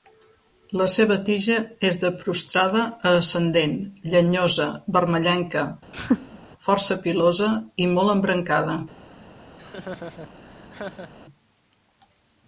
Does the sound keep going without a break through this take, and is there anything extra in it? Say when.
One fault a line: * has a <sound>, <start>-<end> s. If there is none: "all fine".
* has a laugh, 5.9-6.4 s
* has a laugh, 9.6-11.1 s